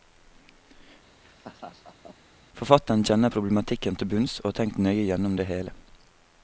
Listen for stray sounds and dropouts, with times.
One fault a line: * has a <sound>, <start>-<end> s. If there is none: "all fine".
* has a laugh, 1.2-2.2 s